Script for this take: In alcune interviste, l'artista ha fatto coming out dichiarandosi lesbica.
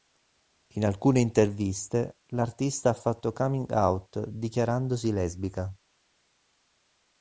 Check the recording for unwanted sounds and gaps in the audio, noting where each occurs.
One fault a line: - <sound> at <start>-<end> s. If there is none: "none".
none